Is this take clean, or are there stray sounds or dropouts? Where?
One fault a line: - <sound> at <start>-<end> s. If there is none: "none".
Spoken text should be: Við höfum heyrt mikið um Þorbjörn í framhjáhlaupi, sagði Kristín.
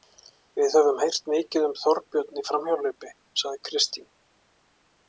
none